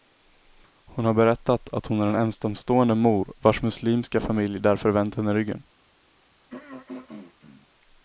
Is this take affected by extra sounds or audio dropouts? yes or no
yes